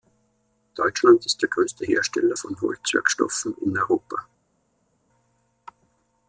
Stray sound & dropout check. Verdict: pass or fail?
pass